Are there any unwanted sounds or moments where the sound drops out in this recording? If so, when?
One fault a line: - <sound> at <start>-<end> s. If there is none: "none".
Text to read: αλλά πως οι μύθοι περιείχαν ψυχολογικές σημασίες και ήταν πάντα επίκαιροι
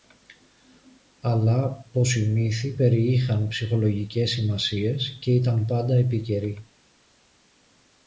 none